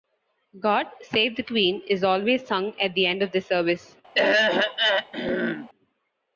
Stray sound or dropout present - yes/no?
yes